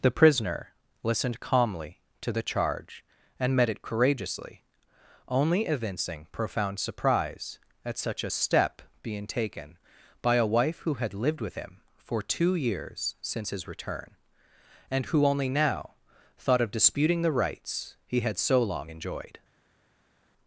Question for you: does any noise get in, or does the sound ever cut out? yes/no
no